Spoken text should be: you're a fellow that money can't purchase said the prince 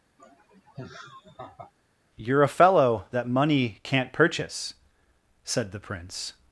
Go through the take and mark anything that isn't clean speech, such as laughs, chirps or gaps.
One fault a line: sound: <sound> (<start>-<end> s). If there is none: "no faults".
sound: laugh (0.2-1.7 s)